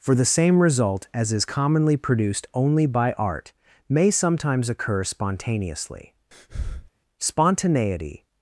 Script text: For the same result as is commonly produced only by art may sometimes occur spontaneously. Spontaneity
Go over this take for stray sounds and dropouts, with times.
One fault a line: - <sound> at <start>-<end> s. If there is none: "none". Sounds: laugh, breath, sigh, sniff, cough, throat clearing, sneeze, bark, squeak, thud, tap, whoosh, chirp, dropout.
- breath at 6.3-6.9 s